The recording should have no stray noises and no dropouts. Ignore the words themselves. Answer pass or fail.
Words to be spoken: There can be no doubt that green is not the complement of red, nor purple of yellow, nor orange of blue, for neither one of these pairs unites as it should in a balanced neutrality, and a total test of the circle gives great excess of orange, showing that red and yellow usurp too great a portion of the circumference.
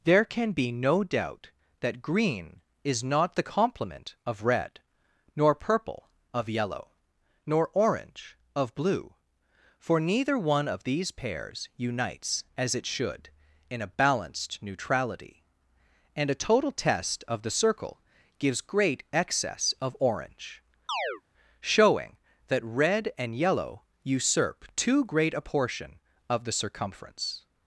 fail